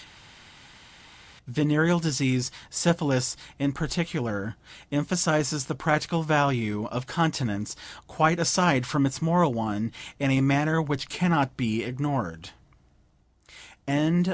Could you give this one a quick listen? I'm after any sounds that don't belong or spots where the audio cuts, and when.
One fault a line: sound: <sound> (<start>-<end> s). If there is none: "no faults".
no faults